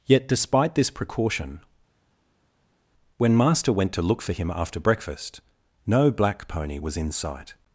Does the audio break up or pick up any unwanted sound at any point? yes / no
no